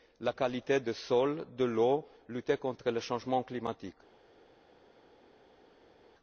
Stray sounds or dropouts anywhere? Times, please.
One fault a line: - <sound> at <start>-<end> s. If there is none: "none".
none